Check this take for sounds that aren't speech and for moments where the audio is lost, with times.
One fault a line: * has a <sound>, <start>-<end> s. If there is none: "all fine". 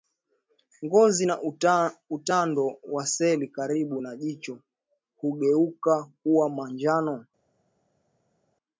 all fine